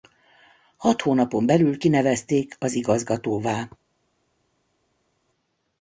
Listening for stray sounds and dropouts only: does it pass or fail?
pass